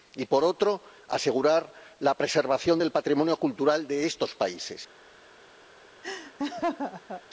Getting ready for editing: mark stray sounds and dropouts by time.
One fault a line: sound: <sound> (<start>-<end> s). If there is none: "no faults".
sound: laugh (6.0-7.2 s)